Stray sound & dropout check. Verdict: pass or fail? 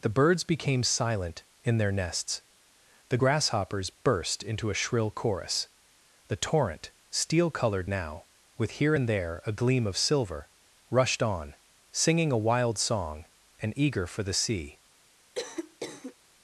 fail